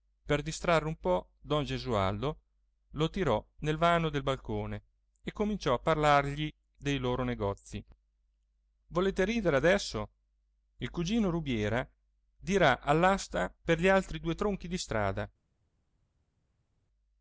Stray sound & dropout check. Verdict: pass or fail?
pass